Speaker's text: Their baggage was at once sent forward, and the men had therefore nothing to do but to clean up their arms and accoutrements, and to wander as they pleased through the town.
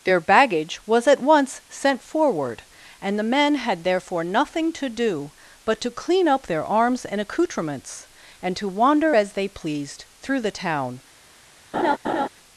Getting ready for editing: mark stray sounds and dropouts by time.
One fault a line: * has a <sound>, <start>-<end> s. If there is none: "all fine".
* has a laugh, 11.7-12.3 s